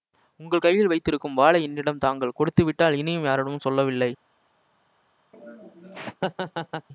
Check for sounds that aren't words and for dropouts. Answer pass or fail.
fail